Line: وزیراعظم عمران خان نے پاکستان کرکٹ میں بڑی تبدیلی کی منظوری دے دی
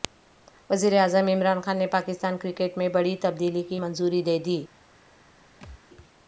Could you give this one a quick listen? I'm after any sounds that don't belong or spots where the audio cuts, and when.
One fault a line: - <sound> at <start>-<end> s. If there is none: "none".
- thud at 5.6-5.8 s